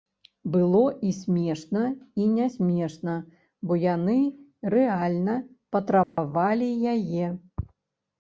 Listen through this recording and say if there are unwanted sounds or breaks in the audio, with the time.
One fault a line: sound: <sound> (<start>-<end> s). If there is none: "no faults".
sound: dropout (6.0-6.2 s)